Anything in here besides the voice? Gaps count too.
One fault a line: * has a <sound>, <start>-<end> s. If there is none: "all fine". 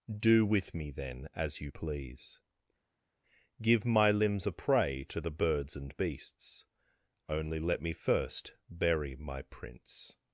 all fine